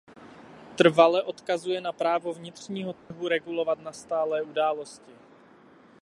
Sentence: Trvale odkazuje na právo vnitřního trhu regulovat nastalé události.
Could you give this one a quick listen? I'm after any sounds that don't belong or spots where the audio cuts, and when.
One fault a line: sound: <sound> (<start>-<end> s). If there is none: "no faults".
sound: dropout (3.0-3.1 s)